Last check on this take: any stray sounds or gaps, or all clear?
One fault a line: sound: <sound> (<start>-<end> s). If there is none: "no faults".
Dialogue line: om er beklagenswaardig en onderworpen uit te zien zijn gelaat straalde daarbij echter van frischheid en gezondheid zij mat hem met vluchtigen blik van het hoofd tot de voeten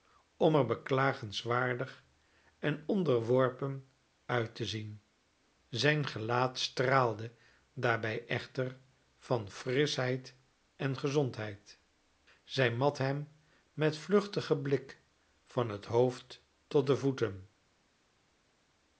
no faults